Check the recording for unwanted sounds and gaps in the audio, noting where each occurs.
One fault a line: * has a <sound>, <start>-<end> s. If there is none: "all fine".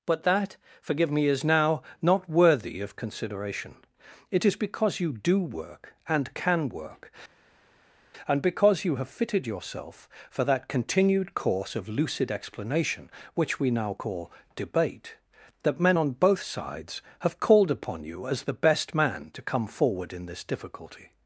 all fine